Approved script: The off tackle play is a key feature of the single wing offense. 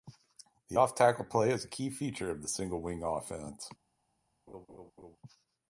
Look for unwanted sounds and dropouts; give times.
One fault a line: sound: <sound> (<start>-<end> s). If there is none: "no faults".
sound: laugh (4.5-5.2 s)